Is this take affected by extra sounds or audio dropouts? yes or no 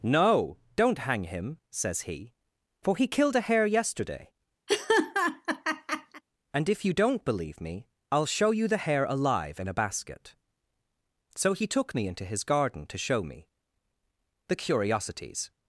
yes